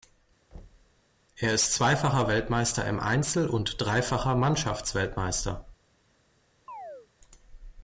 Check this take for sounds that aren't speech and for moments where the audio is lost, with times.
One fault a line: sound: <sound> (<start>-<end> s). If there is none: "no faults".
sound: thud (0.5-1.0 s)
sound: chirp (6.7-7.1 s)